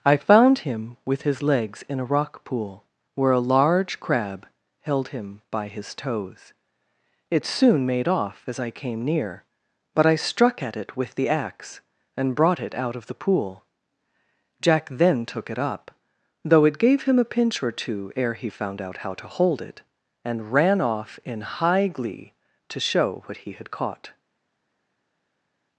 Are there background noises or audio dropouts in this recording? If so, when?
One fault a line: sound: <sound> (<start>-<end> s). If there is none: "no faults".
no faults